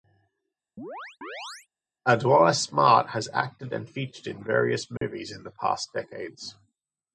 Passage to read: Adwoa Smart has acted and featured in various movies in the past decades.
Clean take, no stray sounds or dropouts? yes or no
no